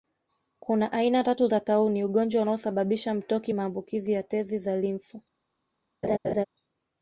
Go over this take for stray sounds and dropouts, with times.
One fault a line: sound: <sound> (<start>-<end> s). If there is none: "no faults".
sound: laugh (6.0-6.4 s)